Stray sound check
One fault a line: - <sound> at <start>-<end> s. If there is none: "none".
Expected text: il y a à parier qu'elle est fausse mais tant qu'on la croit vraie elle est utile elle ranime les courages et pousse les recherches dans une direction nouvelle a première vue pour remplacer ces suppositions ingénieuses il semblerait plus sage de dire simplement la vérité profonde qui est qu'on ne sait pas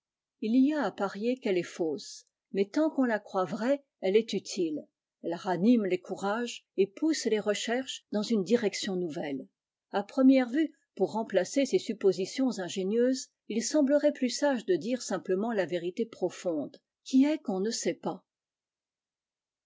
none